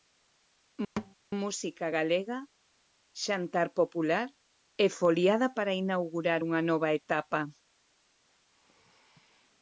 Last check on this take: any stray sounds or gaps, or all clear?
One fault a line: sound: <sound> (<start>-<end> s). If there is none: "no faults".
sound: thud (1.0-1.1 s)